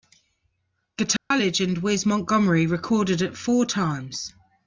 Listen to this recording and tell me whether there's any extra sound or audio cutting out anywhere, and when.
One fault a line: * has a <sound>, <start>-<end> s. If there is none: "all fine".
* has a dropout, 1.2-1.3 s